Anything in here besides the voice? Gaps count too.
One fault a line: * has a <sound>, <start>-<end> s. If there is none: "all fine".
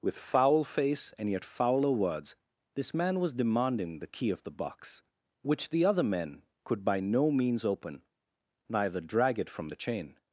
all fine